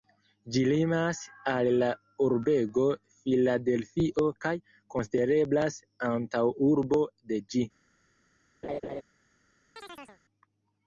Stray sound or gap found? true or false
true